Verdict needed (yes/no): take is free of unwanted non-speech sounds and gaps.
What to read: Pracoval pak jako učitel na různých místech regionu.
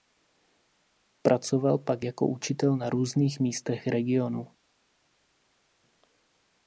yes